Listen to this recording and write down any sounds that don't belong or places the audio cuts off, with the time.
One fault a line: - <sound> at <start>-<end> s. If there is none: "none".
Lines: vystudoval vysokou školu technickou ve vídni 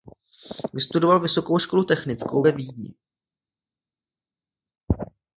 none